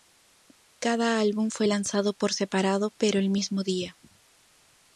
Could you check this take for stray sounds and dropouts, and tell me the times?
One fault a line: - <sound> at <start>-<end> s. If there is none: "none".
none